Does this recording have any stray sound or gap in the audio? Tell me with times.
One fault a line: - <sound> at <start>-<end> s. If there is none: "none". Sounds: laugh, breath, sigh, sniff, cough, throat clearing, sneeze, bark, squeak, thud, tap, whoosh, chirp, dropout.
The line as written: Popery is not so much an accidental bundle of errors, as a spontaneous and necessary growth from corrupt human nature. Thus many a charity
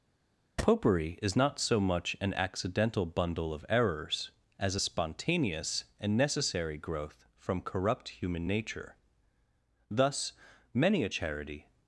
none